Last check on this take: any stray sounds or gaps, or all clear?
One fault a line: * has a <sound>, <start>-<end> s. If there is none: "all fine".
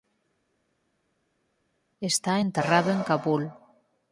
all fine